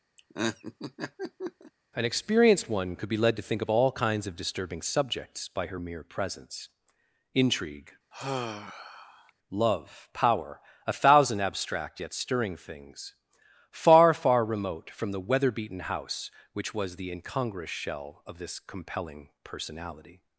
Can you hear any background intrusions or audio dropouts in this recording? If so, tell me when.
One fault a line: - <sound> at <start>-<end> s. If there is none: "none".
- laugh at 0.2-1.7 s
- sigh at 8.1-9.3 s